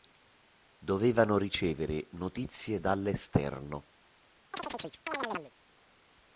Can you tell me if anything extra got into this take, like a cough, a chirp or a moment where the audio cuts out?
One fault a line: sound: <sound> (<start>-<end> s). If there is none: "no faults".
sound: chirp (4.5-5.5 s)